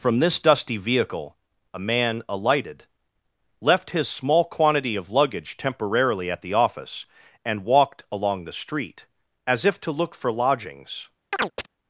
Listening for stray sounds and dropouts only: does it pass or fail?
fail